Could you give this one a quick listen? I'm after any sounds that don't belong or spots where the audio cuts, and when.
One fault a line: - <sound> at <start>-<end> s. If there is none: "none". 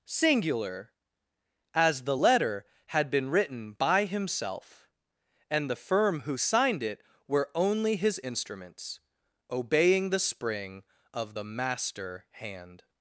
none